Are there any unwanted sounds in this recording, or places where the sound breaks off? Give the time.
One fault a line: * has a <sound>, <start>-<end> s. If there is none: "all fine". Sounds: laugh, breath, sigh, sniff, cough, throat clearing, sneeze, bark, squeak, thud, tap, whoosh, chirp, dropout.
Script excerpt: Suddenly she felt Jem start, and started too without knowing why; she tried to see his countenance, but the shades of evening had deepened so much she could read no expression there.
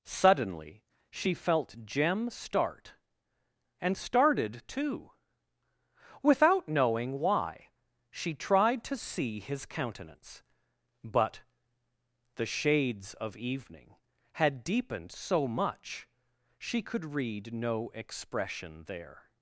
all fine